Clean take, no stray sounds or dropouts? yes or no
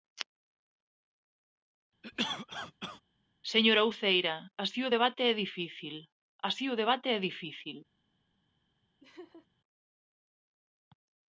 no